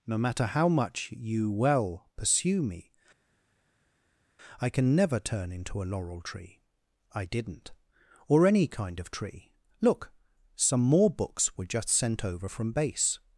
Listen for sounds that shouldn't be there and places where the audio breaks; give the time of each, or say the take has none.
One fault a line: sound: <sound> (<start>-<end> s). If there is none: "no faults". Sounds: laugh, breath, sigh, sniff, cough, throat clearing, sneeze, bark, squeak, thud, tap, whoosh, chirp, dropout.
no faults